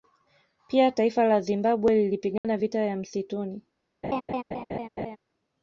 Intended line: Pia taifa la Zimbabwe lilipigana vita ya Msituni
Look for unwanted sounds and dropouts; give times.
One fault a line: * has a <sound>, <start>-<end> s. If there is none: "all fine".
* has a dropout, 2.4-2.4 s
* has a laugh, 4.0-5.2 s